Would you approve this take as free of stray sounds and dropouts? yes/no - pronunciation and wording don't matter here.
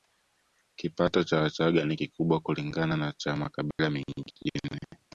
no